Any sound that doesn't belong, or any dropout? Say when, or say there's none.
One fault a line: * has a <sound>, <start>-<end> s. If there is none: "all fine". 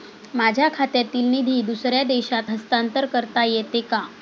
all fine